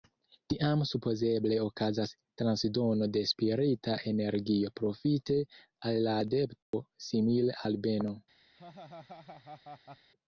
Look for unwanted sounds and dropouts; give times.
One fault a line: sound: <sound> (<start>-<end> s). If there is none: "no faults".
sound: dropout (6.6-6.7 s)
sound: laugh (8.6-10.1 s)